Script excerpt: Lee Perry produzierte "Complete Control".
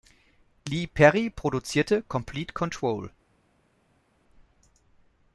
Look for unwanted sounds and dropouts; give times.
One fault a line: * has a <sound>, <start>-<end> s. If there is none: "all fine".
all fine